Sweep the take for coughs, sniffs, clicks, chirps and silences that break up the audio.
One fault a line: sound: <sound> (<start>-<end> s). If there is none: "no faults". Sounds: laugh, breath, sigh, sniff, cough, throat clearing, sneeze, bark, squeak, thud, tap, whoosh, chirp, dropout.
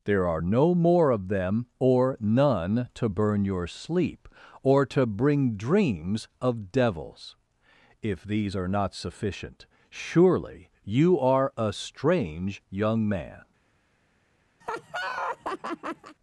sound: laugh (14.6-16.2 s)